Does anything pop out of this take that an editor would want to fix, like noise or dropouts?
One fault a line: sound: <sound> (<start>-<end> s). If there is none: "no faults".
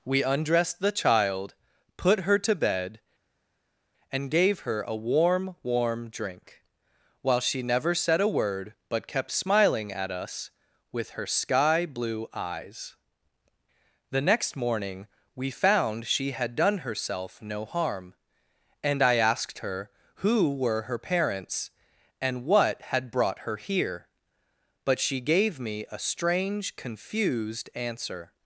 no faults